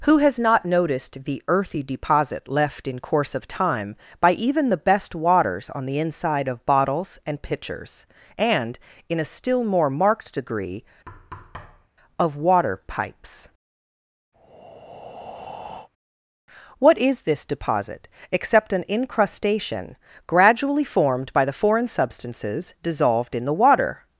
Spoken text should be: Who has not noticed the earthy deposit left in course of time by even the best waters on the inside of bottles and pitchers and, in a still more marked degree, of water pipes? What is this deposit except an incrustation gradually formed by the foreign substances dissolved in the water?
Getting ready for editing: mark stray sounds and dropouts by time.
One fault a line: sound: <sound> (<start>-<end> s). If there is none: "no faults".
sound: thud (11.1-11.9 s)
sound: breath (14.3-15.9 s)